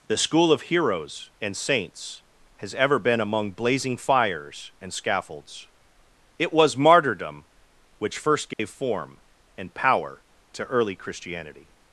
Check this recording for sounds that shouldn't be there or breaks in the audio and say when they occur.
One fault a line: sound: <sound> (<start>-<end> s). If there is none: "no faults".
sound: dropout (8.5-8.6 s)